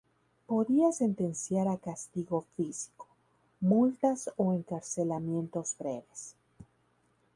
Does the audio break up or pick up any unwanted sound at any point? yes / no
no